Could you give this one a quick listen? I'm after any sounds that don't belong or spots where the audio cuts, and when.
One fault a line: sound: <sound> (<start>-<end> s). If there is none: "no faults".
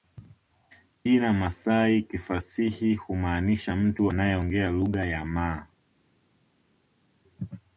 no faults